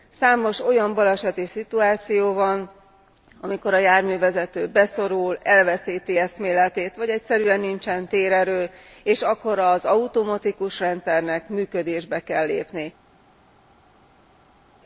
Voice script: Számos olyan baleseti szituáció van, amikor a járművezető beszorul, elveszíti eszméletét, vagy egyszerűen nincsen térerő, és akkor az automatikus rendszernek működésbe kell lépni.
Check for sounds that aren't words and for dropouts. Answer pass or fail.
pass